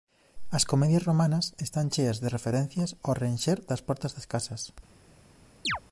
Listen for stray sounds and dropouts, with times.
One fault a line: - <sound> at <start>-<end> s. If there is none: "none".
- chirp at 5.6-5.8 s